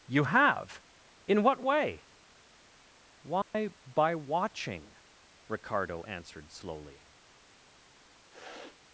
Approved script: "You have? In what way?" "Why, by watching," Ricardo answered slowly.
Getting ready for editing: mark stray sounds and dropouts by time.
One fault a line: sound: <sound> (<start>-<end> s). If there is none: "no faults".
sound: dropout (3.4-3.5 s)
sound: sniff (8.3-8.8 s)